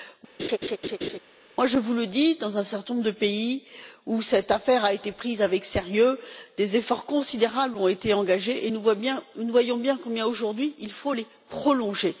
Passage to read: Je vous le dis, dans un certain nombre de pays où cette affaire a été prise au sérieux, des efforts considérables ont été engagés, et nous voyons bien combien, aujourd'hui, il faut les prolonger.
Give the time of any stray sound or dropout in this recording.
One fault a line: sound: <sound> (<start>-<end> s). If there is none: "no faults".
sound: laugh (0.4-1.2 s)